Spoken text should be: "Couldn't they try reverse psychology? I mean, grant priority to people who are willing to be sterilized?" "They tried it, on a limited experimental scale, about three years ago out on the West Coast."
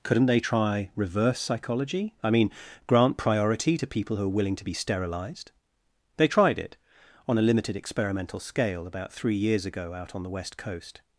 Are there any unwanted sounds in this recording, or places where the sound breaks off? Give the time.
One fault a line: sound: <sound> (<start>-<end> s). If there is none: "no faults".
no faults